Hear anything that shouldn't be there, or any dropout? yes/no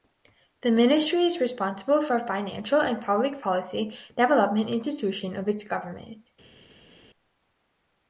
no